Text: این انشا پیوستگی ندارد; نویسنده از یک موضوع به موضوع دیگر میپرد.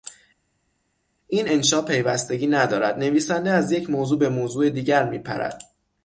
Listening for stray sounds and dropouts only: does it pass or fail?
pass